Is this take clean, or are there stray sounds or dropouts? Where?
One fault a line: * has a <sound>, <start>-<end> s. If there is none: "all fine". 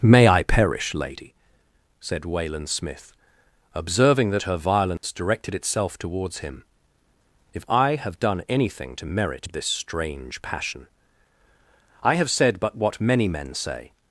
* has a dropout, 5.0-5.0 s